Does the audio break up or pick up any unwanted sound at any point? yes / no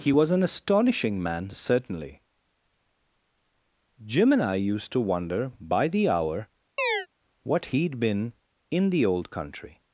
yes